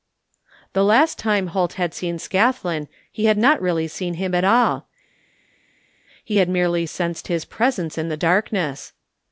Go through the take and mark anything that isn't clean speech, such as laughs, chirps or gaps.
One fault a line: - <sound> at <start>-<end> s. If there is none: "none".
none